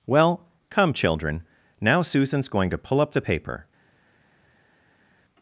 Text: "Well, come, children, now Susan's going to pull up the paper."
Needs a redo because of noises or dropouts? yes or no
no